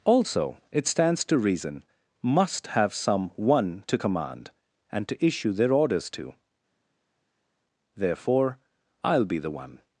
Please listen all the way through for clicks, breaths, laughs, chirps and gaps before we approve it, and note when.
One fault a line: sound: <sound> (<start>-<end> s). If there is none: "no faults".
no faults